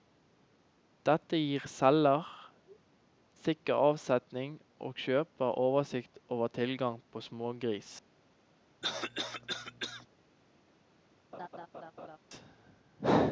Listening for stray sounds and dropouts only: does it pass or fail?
fail